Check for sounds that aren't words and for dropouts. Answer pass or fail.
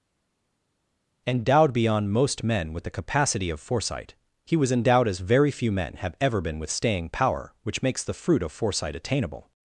pass